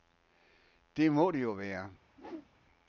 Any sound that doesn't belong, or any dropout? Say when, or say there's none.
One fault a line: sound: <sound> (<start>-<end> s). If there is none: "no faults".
sound: whoosh (2.1-2.5 s)